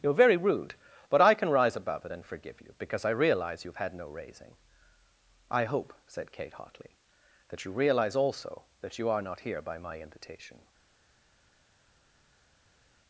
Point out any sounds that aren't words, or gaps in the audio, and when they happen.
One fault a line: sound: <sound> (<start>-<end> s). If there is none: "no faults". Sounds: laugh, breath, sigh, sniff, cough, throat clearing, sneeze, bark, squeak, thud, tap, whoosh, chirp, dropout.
no faults